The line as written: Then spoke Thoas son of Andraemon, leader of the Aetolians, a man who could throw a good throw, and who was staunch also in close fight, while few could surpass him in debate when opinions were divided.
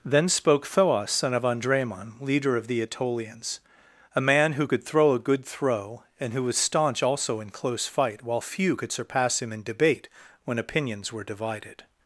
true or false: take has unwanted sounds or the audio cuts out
false